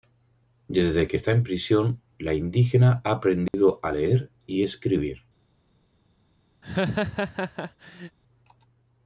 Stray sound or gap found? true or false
true